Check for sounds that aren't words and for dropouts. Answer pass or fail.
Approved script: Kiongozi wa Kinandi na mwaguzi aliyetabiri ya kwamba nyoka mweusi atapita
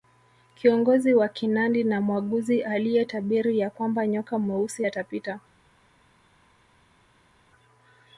pass